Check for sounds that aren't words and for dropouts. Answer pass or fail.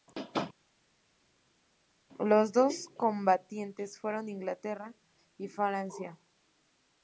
pass